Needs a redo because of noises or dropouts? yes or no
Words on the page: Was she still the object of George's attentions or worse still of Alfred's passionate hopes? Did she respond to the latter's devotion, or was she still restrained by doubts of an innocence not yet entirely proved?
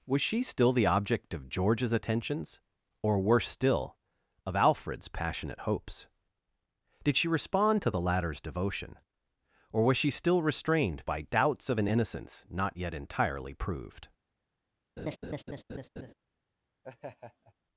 yes